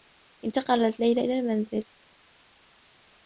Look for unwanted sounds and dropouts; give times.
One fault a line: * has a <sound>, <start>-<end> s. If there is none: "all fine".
all fine